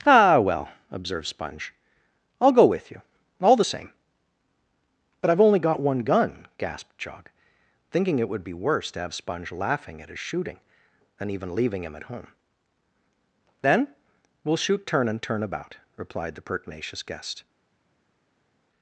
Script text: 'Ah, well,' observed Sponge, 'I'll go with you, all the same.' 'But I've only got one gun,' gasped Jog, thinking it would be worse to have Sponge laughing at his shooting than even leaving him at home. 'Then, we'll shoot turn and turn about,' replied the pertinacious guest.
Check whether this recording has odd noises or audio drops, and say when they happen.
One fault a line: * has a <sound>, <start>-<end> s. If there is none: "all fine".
all fine